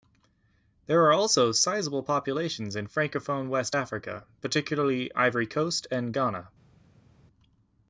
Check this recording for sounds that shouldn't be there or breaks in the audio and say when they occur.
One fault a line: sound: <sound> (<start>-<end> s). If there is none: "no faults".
no faults